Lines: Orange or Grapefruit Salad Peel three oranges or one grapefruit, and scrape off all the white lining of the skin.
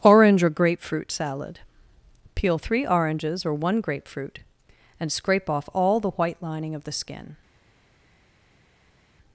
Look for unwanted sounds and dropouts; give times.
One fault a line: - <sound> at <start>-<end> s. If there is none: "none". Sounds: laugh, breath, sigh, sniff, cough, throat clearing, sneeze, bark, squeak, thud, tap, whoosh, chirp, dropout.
none